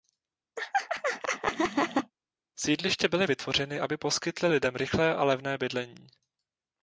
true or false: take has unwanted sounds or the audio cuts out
true